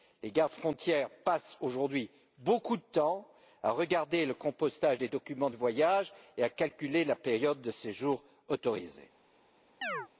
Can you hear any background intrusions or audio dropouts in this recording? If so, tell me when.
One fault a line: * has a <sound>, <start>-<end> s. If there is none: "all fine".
* has a chirp, 9.8-10.1 s